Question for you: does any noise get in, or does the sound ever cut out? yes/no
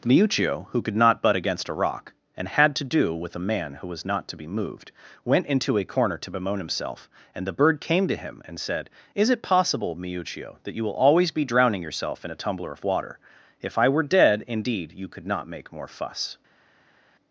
no